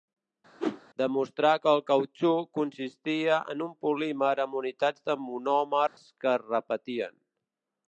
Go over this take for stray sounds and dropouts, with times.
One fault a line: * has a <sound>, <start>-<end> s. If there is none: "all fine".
* has a whoosh, 0.6-0.8 s
* has a dropout, 5.9-6.0 s